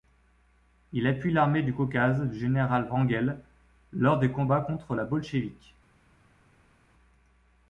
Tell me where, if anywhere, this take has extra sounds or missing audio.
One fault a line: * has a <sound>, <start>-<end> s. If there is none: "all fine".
all fine